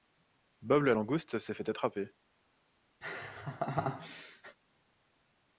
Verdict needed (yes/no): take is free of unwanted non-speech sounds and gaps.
no